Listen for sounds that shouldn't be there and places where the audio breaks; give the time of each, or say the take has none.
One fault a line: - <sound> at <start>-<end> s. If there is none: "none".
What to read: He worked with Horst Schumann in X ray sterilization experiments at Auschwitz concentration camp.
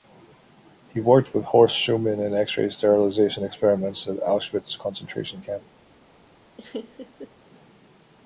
- laugh at 6.6-7.3 s